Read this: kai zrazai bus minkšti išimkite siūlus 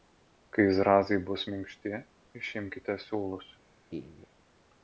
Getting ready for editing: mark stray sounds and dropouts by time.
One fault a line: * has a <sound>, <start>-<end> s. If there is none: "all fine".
* has a laugh, 3.9-4.3 s